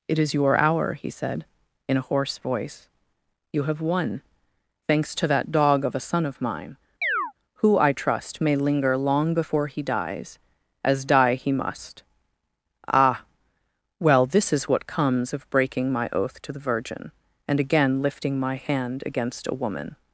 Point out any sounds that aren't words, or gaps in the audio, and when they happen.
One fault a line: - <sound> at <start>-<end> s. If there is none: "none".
- chirp at 7.0-7.3 s